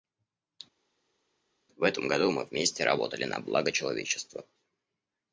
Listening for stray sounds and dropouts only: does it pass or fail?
pass